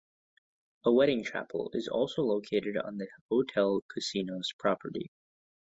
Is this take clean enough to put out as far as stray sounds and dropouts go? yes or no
yes